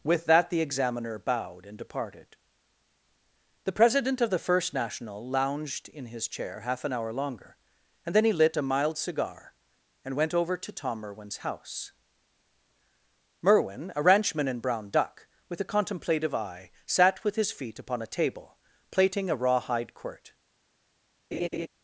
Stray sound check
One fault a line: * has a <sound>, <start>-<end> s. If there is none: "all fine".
* has a laugh, 21.3-21.7 s